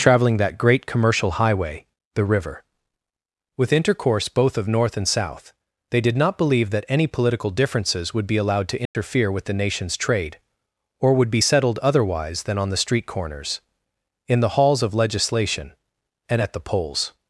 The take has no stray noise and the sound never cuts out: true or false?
false